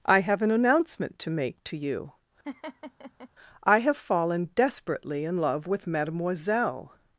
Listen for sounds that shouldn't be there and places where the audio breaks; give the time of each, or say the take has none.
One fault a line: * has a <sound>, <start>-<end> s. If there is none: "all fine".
* has a laugh, 2.4-3.3 s